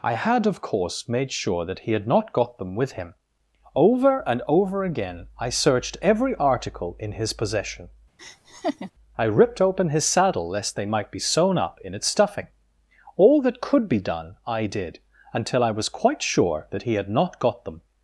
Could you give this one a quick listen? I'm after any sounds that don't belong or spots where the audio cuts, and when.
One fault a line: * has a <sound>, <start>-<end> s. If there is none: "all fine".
* has a laugh, 8.2-8.9 s